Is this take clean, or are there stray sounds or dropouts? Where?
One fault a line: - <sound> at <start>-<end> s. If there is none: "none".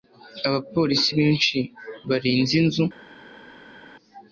none